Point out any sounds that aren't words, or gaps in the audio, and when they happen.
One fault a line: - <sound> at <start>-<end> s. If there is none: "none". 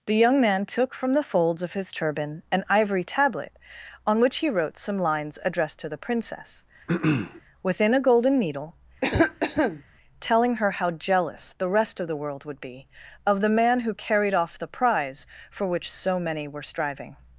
- throat clearing at 6.9-7.4 s
- cough at 9.0-9.8 s